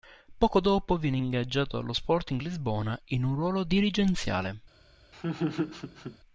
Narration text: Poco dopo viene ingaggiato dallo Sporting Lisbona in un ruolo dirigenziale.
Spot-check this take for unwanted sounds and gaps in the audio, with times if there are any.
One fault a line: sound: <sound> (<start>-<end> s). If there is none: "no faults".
sound: laugh (5.1-6.2 s)